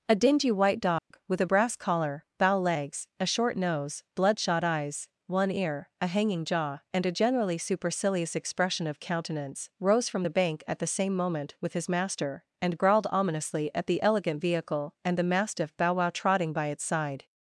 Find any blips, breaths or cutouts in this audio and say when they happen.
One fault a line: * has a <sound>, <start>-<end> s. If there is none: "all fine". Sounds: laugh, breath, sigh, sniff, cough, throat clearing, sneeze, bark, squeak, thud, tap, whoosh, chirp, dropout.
* has a dropout, 1.0-1.1 s